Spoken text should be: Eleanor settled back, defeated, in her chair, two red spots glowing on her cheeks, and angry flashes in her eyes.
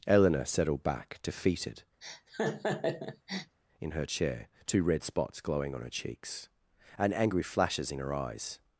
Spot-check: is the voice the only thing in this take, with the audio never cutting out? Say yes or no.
no